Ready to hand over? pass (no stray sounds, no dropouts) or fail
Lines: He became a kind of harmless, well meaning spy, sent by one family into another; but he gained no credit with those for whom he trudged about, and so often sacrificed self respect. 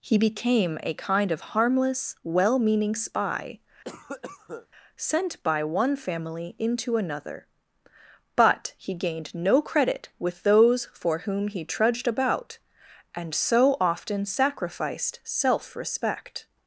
fail